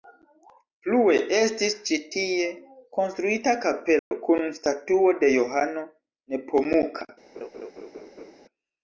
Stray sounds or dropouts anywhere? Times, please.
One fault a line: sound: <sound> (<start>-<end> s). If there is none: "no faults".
sound: dropout (4.0-4.1 s)
sound: laugh (7.3-8.4 s)